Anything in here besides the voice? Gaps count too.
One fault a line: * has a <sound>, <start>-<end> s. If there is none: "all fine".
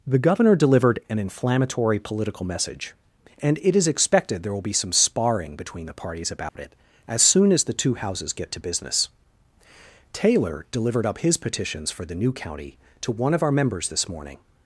* has a dropout, 6.5-6.6 s